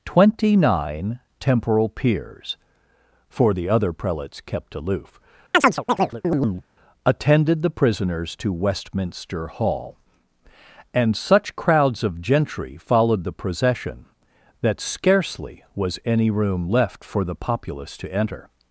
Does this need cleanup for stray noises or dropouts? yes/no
yes